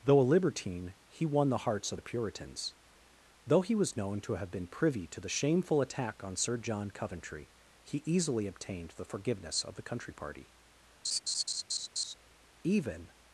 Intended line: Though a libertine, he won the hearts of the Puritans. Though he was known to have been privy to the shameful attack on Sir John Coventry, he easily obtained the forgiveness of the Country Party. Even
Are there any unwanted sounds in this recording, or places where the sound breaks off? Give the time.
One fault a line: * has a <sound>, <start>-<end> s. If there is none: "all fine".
* has a laugh, 11.0-12.1 s